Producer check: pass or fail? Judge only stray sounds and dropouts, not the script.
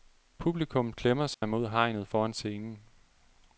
fail